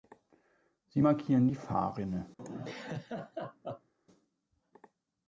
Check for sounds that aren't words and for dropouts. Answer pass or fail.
fail